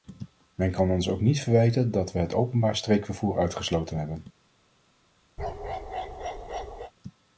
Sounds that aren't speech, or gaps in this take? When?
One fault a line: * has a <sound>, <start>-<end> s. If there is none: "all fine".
* has a bark, 5.4-6.9 s